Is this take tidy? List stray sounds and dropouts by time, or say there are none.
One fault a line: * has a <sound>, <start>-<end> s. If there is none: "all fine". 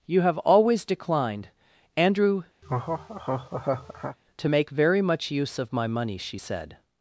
* has a laugh, 2.6-4.2 s